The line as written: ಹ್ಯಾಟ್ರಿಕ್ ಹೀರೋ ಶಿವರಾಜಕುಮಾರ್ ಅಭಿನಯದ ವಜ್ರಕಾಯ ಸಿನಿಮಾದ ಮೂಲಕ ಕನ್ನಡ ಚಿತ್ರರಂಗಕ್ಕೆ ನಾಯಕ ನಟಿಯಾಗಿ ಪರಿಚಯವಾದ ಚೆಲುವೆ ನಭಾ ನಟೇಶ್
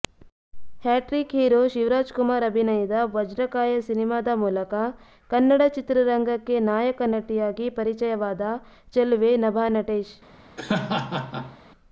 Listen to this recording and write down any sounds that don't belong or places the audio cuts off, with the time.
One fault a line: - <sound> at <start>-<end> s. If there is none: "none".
- laugh at 10.6-11.6 s